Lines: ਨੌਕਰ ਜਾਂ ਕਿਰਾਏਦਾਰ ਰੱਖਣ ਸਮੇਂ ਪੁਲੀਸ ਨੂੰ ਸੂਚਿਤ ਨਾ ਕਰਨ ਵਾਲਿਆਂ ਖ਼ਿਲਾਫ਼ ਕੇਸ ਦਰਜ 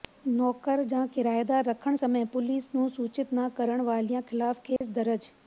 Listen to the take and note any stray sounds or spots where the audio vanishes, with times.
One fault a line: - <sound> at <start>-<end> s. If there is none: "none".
- dropout at 4.8-4.8 s